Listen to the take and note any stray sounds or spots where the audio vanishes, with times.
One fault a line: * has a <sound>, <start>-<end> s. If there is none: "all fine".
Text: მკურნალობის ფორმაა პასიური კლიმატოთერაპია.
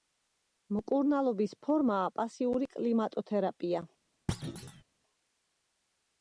* has a thud, 4.3-4.8 s